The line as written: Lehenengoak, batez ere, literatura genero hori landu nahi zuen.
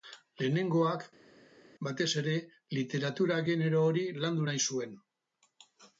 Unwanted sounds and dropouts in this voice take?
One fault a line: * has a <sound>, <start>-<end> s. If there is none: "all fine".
all fine